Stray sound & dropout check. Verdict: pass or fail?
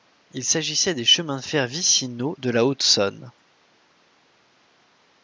pass